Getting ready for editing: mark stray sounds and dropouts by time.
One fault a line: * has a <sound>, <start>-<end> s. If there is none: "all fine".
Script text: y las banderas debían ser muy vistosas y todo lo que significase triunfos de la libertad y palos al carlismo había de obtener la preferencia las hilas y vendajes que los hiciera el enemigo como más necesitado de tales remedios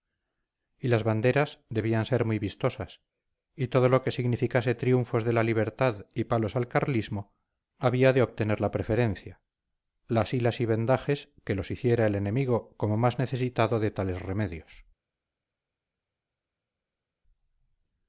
all fine